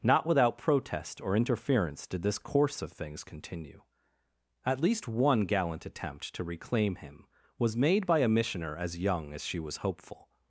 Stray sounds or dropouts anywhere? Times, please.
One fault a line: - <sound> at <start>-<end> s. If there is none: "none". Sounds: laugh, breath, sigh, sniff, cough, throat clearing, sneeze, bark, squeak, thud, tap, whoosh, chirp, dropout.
none